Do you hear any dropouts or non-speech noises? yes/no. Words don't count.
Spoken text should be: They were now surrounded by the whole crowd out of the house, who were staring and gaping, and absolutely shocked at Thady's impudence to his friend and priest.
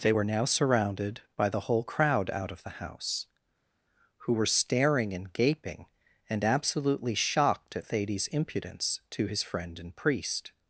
no